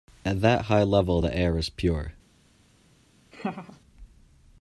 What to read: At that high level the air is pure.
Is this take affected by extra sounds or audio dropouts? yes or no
yes